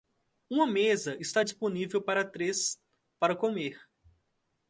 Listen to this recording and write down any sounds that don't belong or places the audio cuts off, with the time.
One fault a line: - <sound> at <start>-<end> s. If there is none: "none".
none